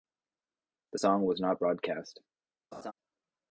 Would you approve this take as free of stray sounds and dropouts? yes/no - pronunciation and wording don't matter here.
no